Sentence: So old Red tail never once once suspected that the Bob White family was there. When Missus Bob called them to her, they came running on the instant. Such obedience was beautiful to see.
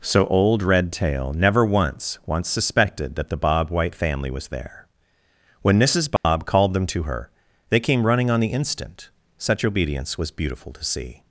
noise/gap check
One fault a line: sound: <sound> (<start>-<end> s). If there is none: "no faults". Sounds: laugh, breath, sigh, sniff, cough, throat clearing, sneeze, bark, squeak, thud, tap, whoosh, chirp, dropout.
sound: dropout (6.2-6.2 s)